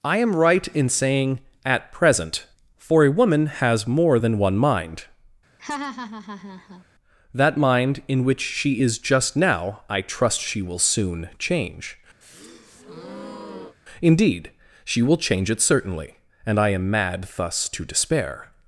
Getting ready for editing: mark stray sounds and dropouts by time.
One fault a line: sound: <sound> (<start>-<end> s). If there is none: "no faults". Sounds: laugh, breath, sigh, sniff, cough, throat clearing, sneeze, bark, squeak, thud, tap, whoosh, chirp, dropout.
sound: laugh (5.6-6.8 s)
sound: breath (12.2-13.8 s)